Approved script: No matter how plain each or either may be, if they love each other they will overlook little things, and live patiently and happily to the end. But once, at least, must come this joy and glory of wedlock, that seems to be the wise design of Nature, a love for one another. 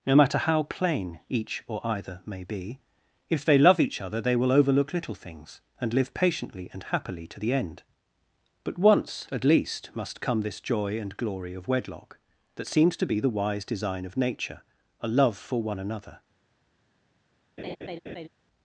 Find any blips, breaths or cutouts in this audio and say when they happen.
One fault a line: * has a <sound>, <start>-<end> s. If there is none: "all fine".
* has a laugh, 17.6-18.3 s